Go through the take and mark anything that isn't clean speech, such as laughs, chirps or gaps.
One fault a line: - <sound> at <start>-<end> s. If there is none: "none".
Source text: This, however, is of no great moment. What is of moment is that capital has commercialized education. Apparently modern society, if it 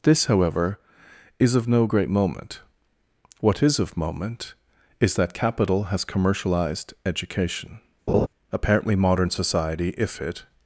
- laugh at 8.1-8.3 s